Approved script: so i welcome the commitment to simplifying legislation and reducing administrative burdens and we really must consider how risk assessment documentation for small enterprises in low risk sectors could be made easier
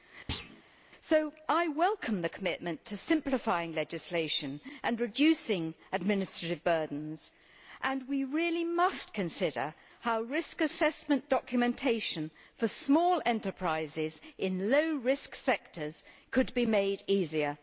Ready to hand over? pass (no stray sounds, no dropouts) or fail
fail